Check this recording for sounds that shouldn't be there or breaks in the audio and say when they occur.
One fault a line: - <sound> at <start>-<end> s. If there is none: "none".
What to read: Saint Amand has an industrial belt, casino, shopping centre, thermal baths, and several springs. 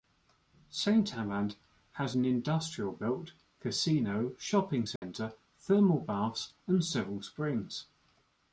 - dropout at 5.0-5.0 s